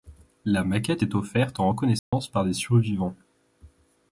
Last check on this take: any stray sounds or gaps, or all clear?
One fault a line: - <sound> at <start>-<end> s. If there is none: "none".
- dropout at 2.0-2.1 s